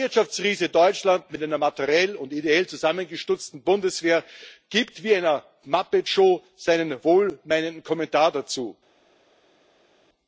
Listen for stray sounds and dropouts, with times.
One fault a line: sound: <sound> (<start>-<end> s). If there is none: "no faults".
no faults